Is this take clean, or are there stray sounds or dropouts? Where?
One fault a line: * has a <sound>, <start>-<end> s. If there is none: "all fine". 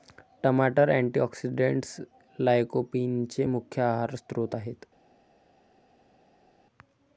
all fine